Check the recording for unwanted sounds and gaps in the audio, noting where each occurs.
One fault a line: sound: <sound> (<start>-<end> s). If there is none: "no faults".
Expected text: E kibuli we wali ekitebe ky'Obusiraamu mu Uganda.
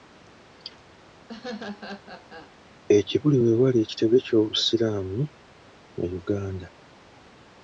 sound: laugh (1.3-2.6 s)